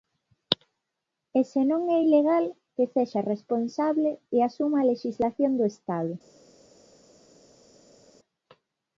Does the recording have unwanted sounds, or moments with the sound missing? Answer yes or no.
no